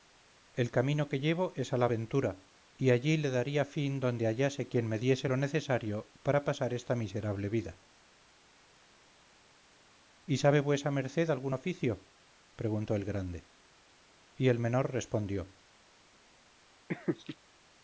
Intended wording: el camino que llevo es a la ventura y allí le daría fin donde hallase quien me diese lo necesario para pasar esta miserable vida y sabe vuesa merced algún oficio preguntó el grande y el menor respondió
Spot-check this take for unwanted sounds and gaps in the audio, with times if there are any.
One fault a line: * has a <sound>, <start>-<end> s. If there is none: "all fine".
* has a laugh, 16.9-17.4 s